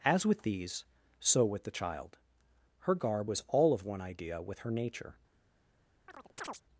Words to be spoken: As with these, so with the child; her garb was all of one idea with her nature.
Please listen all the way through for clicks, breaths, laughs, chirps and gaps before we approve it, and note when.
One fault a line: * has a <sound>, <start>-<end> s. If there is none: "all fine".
* has a chirp, 6.1-6.6 s